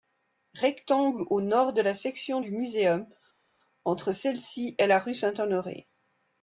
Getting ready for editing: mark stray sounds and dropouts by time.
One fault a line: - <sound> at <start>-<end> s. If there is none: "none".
none